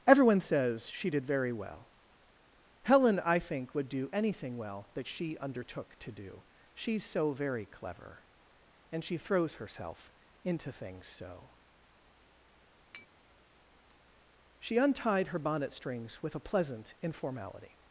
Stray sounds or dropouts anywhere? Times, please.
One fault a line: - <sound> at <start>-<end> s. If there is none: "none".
- tap at 12.9-13.1 s